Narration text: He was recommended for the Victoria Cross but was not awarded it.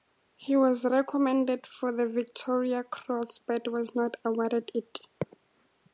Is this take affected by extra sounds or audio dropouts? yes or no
no